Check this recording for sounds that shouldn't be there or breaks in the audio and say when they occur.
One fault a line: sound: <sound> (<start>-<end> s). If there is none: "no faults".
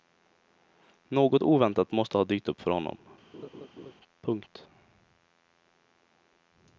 sound: laugh (3.3-3.9 s)